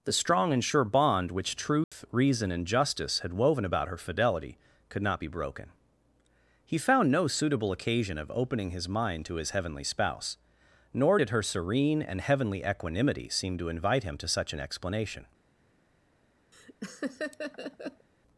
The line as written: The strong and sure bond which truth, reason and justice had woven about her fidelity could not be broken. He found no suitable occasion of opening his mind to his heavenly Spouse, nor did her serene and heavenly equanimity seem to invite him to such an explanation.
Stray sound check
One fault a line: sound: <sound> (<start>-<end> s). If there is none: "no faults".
sound: dropout (1.8-1.9 s)
sound: laugh (16.5-18.1 s)